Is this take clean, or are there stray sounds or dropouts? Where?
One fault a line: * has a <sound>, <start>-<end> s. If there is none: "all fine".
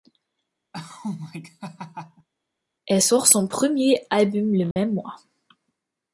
* has a laugh, 0.7-2.3 s
* has a dropout, 4.7-4.8 s